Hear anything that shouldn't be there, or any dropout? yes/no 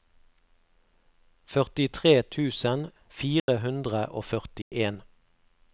yes